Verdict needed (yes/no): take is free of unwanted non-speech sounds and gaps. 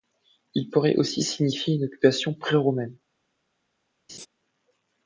no